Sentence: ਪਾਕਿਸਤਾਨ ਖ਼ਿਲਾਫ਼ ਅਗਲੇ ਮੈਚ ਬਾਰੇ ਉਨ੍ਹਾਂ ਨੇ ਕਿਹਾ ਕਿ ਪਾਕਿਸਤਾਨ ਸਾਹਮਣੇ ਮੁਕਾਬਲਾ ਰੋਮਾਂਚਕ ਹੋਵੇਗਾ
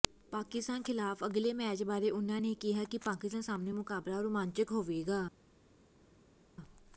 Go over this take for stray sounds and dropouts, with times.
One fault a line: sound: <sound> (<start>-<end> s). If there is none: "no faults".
no faults